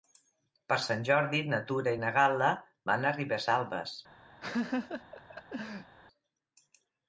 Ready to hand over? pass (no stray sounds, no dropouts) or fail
fail